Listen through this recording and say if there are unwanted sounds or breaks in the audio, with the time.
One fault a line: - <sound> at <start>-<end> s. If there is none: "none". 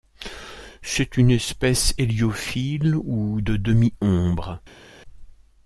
none